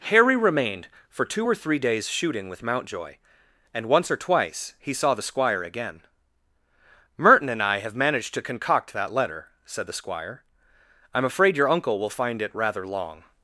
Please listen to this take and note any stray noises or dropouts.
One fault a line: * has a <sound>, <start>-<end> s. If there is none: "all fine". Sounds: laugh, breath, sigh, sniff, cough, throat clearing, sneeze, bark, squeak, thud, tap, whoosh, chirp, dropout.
all fine